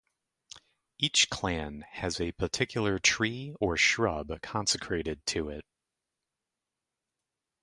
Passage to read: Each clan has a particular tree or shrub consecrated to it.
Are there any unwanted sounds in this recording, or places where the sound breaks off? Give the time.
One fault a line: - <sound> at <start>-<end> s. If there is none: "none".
none